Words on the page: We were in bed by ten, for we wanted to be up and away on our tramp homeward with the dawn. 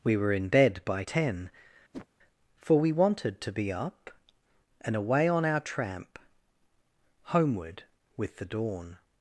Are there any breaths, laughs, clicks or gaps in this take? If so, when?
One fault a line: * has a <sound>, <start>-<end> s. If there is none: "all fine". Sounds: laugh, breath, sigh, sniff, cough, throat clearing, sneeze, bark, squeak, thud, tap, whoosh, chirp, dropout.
* has a whoosh, 1.9-2.1 s